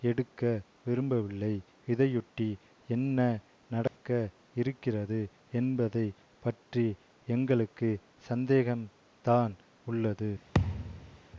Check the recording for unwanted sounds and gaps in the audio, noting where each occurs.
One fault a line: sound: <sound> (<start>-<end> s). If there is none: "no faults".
sound: dropout (3.9-4.0 s)
sound: thud (10.5-11.2 s)